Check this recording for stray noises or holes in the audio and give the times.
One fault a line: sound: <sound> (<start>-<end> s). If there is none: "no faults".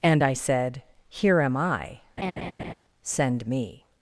sound: laugh (2.2-2.7 s)